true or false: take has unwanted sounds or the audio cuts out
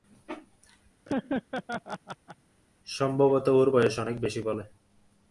true